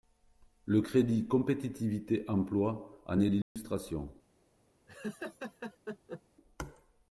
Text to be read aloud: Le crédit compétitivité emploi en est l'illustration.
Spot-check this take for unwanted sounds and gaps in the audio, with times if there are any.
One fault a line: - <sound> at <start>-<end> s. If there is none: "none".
- dropout at 3.4-3.6 s
- laugh at 4.9-6.2 s